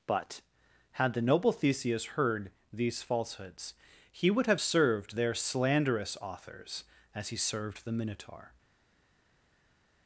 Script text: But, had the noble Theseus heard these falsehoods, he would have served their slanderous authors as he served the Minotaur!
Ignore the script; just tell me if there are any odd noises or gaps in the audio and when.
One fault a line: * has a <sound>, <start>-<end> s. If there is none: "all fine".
all fine